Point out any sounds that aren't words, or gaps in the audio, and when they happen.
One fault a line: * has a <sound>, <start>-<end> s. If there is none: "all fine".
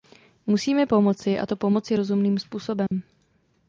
* has a dropout, 2.9-2.9 s